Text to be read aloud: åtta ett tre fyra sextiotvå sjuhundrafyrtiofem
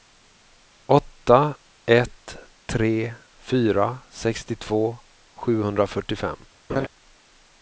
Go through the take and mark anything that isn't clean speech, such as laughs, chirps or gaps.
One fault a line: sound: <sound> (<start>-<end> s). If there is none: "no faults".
sound: laugh (6.7-6.9 s)